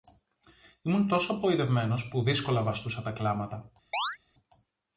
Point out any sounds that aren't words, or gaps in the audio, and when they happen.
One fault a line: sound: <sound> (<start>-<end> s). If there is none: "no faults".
sound: chirp (3.9-4.2 s)